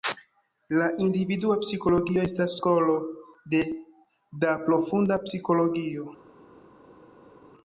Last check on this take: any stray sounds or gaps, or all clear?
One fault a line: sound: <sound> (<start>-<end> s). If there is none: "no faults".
no faults